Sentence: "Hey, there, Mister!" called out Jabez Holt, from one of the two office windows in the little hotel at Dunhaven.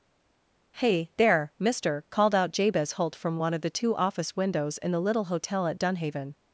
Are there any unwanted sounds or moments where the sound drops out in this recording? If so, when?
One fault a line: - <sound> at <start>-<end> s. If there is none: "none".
none